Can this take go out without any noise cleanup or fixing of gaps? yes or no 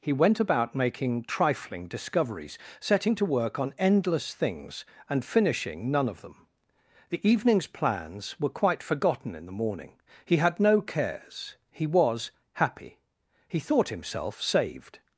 yes